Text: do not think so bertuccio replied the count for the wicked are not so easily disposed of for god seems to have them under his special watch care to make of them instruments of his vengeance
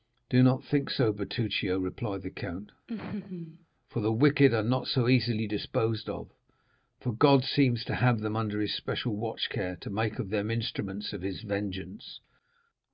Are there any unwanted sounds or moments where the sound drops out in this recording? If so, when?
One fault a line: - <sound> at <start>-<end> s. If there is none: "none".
- laugh at 2.9-3.7 s